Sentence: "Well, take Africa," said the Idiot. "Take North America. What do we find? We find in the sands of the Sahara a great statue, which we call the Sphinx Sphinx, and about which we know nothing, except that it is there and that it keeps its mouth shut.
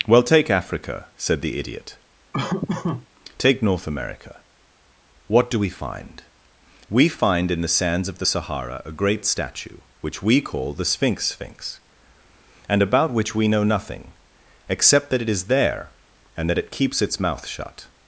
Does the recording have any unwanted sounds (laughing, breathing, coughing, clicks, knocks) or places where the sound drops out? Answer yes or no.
yes